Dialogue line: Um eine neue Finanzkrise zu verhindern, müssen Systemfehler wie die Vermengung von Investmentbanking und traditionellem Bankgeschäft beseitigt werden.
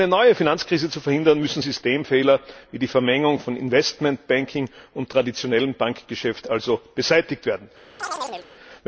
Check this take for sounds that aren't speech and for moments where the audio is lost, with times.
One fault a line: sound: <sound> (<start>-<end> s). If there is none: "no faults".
sound: chirp (8.0-8.5 s)